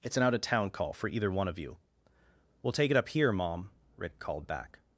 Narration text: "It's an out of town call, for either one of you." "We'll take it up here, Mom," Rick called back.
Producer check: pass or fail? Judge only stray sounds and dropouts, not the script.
pass